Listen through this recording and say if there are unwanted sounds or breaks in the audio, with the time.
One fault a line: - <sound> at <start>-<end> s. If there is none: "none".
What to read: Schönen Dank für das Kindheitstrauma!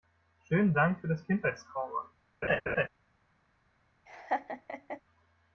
- laugh at 2.4-2.9 s
- laugh at 4.1-5.0 s